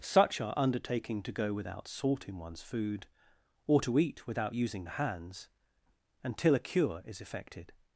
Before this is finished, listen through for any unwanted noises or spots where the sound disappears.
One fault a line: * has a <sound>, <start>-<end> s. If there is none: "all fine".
all fine